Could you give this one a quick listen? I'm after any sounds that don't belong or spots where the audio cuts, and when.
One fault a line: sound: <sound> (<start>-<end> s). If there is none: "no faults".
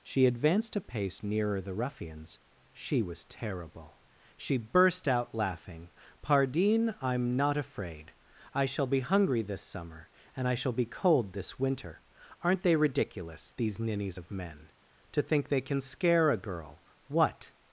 no faults